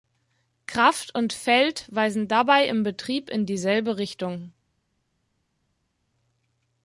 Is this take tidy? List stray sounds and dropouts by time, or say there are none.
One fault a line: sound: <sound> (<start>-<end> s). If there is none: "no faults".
no faults